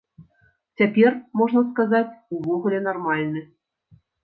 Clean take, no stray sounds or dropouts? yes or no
yes